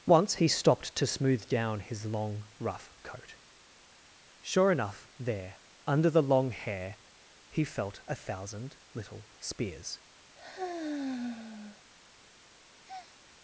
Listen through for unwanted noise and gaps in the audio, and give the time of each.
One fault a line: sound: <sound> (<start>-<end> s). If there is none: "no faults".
sound: sigh (10.4-11.8 s)
sound: breath (12.8-13.2 s)